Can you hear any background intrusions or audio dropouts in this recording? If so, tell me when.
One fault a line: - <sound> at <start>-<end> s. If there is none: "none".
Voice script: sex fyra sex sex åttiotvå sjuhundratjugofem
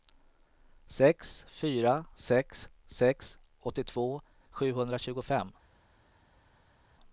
none